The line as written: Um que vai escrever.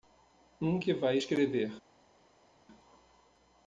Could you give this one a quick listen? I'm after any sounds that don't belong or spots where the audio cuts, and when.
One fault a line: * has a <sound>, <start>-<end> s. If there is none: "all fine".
all fine